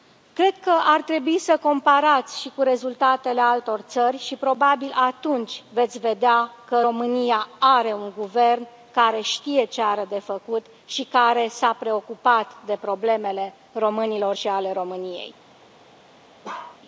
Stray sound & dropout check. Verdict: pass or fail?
fail